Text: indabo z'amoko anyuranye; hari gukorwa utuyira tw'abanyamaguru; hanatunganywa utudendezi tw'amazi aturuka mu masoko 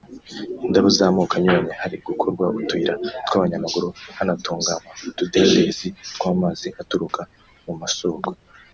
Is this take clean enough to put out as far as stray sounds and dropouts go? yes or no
no